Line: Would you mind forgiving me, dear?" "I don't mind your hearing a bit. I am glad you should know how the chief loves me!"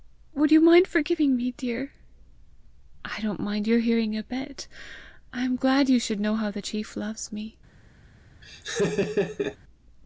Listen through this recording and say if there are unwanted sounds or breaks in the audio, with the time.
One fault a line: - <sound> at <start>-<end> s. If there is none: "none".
- laugh at 8.4-9.6 s